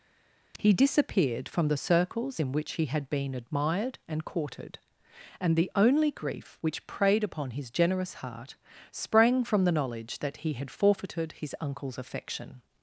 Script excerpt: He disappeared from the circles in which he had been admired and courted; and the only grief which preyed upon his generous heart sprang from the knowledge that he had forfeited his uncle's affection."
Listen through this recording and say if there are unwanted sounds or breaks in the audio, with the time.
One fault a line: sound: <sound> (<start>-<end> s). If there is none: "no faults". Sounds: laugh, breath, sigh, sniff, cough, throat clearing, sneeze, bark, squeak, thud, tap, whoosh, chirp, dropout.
no faults